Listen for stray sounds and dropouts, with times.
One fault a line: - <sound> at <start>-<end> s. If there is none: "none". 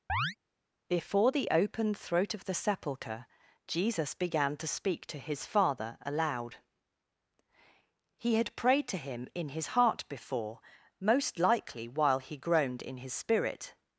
- chirp at 0.1-0.4 s